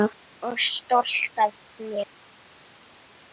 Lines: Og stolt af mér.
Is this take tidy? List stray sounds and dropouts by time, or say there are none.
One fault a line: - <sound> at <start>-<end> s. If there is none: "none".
none